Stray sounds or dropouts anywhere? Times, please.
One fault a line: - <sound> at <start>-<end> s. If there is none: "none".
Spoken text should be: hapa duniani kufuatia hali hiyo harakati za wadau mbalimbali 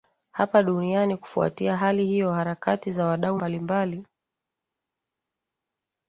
none